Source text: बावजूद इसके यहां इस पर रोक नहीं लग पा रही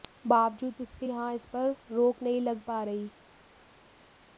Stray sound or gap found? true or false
false